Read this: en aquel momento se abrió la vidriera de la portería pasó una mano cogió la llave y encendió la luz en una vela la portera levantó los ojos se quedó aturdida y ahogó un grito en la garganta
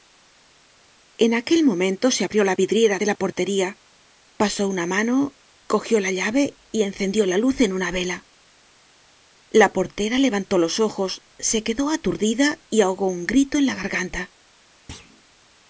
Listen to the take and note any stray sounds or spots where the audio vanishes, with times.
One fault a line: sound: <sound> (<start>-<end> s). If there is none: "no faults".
sound: thud (14.9-15.2 s)